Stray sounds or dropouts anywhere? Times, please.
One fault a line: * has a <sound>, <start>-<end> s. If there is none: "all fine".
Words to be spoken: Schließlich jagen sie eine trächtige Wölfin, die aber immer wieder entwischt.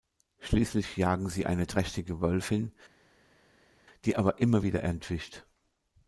all fine